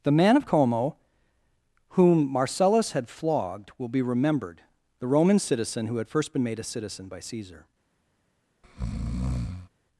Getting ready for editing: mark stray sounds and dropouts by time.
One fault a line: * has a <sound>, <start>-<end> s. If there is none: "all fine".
* has a breath, 8.6-9.7 s